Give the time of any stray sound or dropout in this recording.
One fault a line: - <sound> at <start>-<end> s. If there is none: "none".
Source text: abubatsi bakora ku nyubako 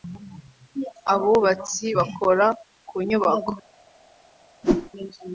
- whoosh at 4.6-4.9 s